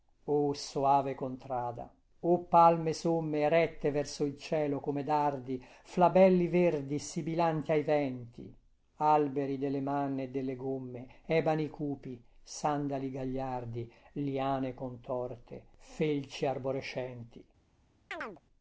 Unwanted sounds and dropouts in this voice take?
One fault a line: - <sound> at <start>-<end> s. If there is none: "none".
- chirp at 18.1-18.4 s